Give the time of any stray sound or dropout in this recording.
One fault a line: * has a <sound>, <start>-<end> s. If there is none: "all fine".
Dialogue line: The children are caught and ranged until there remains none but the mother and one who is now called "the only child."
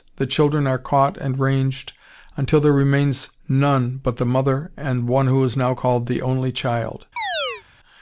* has a chirp, 7.2-7.6 s